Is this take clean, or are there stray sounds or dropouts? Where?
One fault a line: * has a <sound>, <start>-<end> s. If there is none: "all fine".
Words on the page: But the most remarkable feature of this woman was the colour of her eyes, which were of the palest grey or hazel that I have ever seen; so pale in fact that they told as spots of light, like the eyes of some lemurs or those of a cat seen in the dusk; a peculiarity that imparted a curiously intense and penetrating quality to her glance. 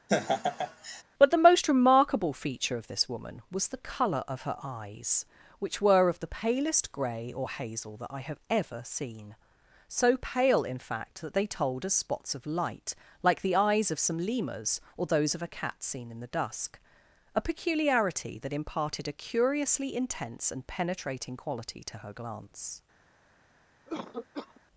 * has a laugh, 0.1-1.0 s
* has a cough, 23.9-24.6 s